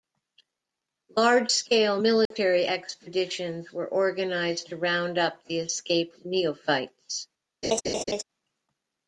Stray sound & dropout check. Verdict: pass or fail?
fail